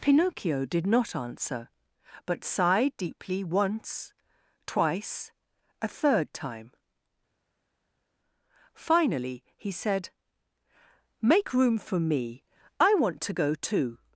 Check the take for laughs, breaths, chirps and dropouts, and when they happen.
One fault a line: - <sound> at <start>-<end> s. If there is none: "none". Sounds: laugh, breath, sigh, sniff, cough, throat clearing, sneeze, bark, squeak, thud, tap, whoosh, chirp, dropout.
none